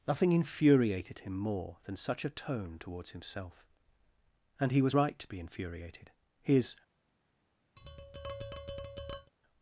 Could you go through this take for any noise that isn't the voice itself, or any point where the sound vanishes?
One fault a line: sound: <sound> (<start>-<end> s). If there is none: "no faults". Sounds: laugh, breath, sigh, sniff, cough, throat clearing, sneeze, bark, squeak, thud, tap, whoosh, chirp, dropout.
sound: tap (7.8-9.3 s)